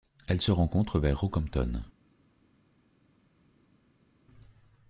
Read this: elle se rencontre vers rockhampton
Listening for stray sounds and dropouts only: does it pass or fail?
pass